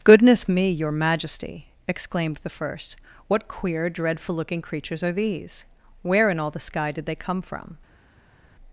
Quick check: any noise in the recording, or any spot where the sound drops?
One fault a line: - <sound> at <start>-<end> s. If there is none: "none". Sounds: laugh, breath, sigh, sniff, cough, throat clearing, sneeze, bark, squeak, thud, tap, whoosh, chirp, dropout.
none